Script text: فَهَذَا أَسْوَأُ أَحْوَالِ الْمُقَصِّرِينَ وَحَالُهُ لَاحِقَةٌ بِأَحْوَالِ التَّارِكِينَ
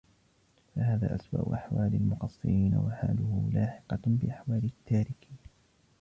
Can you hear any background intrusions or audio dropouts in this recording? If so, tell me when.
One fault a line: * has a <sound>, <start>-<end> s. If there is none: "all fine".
all fine